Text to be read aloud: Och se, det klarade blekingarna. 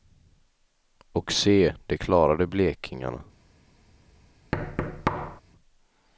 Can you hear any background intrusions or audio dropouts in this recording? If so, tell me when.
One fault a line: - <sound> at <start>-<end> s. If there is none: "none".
- thud at 4.5-5.4 s